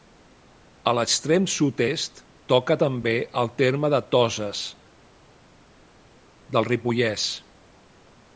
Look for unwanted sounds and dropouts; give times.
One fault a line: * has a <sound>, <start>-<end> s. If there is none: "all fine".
all fine